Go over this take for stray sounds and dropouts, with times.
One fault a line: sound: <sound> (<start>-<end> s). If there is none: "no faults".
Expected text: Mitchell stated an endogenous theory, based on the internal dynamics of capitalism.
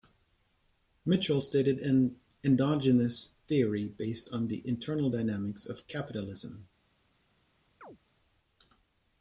sound: chirp (7.8-8.0 s)